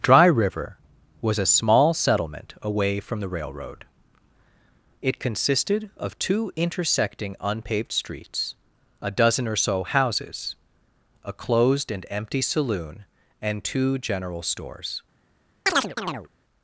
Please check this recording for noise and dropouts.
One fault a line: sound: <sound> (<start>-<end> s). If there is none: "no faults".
sound: chirp (15.7-16.3 s)